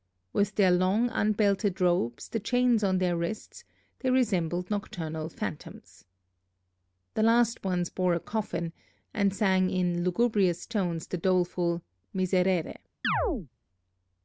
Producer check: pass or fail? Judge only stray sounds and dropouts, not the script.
fail